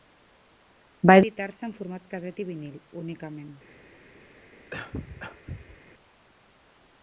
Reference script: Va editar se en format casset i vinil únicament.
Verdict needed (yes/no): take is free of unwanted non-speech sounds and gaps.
no